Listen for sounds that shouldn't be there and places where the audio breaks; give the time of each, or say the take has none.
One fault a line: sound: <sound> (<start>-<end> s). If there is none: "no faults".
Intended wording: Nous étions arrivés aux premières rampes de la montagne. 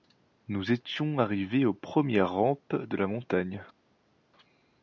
no faults